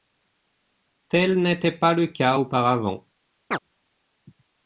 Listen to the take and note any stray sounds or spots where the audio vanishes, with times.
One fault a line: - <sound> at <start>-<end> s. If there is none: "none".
- chirp at 3.5-3.6 s